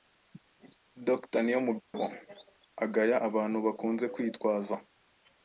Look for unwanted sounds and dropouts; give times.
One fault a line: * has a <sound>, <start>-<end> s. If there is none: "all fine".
* has a dropout, 1.8-1.9 s